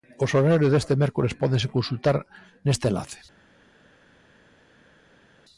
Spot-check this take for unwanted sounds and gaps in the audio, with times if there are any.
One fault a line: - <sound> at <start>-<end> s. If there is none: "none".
none